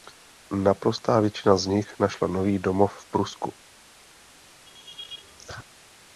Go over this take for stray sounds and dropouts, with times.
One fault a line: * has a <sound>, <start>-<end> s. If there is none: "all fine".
* has a laugh, 4.7-5.6 s